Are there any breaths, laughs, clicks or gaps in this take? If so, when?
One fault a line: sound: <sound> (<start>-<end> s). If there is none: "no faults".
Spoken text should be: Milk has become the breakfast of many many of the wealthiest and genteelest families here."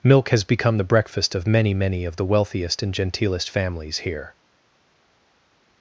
no faults